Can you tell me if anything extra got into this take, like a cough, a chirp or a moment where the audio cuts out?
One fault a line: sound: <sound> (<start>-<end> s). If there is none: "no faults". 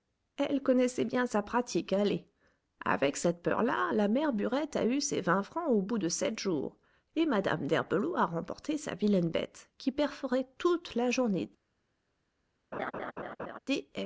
sound: laugh (12.7-13.6 s)